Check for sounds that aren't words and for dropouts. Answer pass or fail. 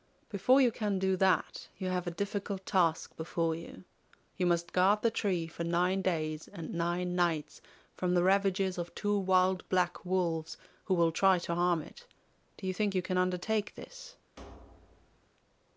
fail